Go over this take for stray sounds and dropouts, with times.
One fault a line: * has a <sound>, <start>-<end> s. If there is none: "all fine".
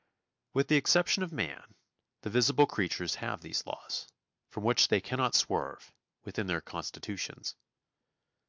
all fine